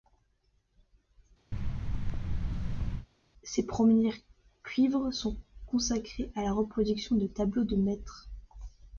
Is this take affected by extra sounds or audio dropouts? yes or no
yes